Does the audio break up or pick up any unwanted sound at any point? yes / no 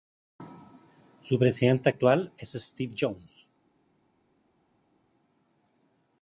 no